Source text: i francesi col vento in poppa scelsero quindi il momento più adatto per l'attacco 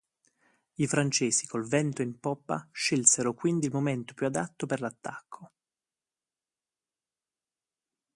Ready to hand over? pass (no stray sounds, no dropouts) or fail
pass